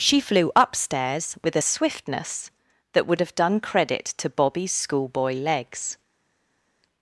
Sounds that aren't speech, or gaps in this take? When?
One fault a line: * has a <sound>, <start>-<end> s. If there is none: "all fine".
all fine